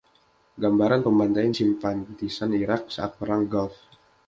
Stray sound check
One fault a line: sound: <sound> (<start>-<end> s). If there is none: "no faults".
no faults